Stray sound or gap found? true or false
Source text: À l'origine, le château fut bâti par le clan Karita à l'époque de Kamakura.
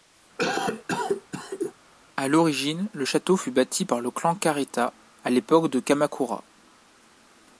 true